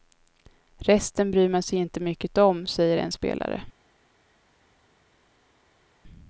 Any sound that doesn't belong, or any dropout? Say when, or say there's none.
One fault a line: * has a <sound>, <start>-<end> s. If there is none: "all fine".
all fine